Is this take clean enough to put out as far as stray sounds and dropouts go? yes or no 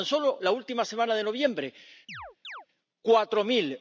no